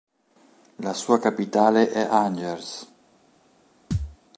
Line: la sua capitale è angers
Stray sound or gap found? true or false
true